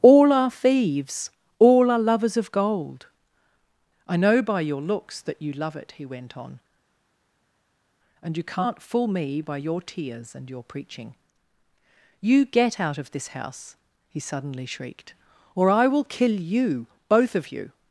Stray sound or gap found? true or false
false